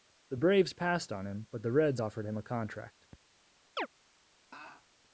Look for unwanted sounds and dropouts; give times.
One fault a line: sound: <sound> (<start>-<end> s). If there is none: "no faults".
sound: chirp (3.8-3.9 s)
sound: laugh (4.5-4.9 s)